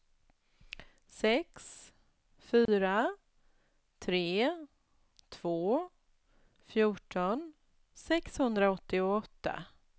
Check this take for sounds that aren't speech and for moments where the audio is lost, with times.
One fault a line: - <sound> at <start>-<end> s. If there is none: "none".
- dropout at 2.7-2.7 s